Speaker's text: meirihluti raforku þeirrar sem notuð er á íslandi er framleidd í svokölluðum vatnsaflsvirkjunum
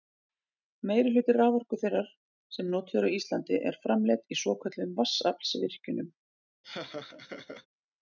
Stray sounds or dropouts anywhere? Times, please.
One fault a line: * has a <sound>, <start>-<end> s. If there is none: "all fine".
* has a laugh, 6.6-7.7 s